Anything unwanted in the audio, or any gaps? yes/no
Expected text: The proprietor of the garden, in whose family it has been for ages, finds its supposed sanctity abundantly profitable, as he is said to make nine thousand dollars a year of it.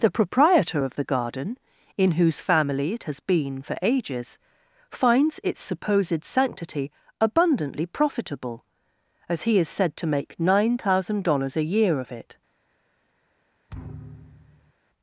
yes